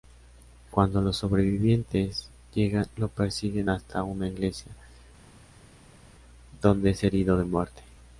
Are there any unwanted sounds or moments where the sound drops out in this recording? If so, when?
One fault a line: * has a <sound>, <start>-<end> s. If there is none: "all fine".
all fine